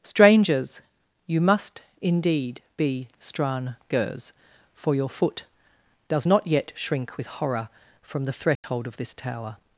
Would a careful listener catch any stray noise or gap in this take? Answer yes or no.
yes